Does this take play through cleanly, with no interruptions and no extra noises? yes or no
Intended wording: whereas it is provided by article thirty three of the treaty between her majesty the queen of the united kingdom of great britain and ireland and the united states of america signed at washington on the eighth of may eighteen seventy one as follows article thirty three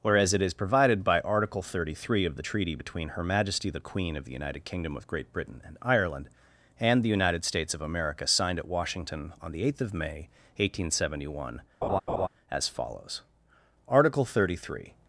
no